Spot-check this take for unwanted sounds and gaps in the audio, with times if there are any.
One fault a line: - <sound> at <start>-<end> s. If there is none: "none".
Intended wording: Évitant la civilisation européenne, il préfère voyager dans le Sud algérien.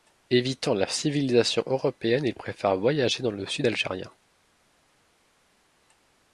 none